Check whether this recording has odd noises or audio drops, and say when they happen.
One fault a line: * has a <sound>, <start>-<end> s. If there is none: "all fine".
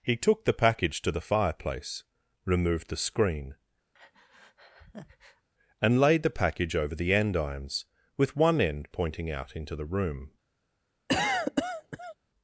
* has a breath, 3.9-5.5 s
* has a cough, 11.1-12.2 s